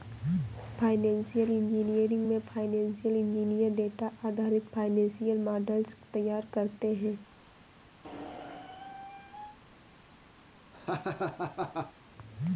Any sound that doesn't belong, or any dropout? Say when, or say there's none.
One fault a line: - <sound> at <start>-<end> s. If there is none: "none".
- squeak at 8.0-9.6 s
- laugh at 10.7-11.9 s